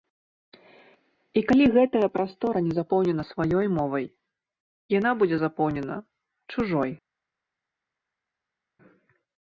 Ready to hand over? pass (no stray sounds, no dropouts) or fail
pass